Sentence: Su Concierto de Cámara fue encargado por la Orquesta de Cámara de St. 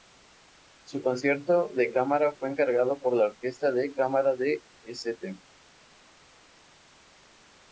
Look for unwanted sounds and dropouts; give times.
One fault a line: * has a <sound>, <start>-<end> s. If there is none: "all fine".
all fine